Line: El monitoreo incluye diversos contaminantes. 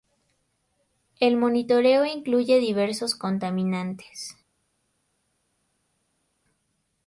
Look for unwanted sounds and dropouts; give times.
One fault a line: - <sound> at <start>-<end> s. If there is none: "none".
none